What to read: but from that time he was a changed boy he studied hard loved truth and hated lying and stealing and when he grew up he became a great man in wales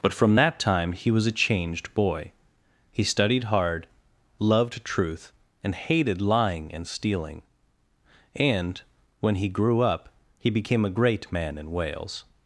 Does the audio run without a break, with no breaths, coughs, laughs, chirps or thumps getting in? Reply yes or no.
yes